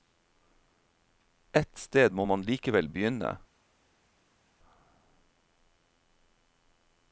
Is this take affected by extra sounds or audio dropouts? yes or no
no